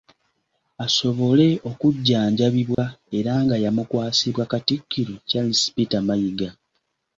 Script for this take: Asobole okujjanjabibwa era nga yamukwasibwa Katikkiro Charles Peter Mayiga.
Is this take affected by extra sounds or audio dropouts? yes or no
yes